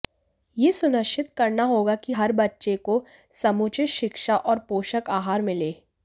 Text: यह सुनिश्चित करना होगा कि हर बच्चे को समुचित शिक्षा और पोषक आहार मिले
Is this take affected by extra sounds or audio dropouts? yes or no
no